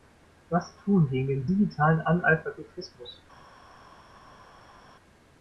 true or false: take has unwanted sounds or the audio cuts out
false